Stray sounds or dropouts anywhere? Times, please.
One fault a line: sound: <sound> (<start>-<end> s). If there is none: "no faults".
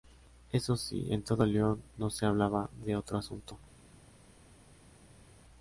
no faults